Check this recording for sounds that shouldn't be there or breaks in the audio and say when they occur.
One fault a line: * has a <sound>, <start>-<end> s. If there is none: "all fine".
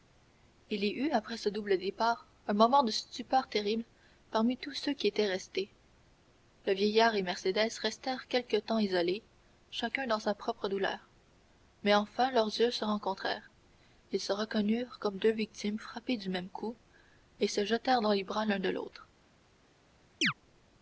* has a chirp, 20.2-20.3 s